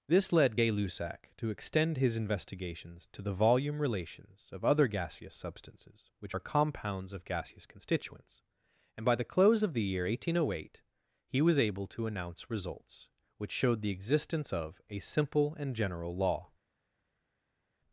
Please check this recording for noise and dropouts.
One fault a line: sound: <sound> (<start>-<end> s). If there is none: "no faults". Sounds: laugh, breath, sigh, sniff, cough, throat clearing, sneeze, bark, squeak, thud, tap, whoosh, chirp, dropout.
no faults